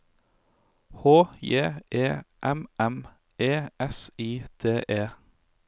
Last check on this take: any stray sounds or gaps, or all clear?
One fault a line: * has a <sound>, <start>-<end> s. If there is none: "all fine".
all fine